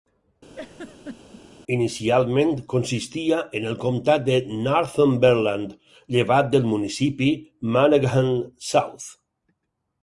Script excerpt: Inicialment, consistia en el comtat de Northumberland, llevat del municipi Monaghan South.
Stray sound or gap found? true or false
true